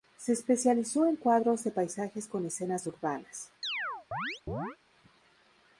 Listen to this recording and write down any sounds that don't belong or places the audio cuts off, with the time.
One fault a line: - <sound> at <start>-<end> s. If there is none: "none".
- chirp at 3.6-4.8 s